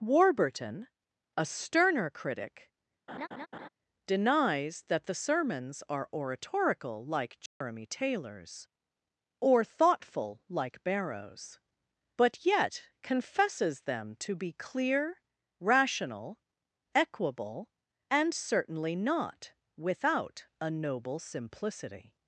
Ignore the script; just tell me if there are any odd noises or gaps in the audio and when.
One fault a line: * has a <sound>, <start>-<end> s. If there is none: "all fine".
* has a laugh, 3.1-3.7 s
* has a dropout, 7.5-7.6 s